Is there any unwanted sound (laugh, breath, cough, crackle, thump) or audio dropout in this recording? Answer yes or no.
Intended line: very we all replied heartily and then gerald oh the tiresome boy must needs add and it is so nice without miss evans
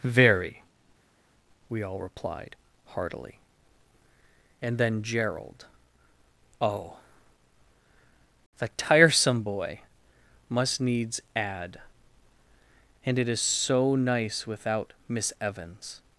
no